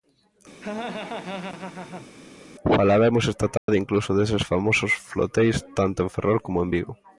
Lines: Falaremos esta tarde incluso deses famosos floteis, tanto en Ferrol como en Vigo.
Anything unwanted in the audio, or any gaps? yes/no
yes